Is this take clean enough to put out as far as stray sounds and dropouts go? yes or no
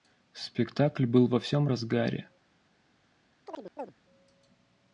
no